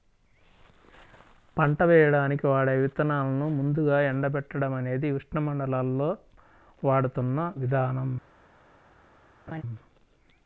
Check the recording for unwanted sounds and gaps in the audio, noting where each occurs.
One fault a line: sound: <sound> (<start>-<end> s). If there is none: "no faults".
sound: laugh (9.5-9.6 s)